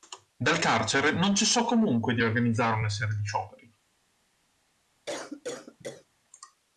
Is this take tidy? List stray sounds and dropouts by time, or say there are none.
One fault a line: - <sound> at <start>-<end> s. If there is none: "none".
- cough at 5.1-6.1 s